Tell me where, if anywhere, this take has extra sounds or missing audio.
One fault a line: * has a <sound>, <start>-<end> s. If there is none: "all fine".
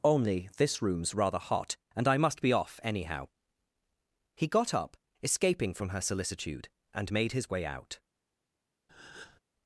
* has a breath, 8.9-9.4 s